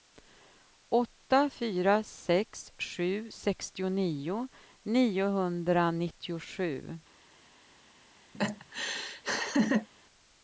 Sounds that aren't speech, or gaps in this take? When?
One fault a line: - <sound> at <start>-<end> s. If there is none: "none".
- laugh at 8.3-9.9 s